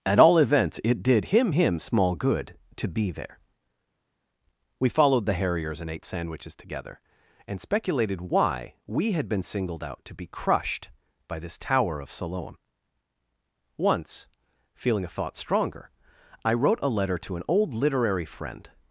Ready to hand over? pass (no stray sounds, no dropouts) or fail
pass